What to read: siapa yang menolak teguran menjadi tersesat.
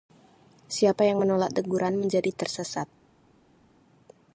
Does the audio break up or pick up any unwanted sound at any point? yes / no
no